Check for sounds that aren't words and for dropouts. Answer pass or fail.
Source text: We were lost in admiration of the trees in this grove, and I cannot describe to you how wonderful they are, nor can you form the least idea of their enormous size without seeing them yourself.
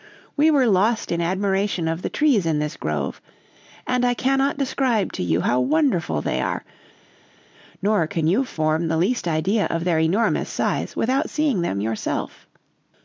pass